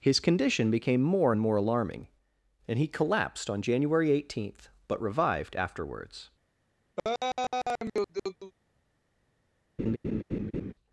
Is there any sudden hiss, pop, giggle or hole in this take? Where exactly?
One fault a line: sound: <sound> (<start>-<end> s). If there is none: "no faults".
sound: laugh (7.0-8.5 s)
sound: laugh (9.8-10.7 s)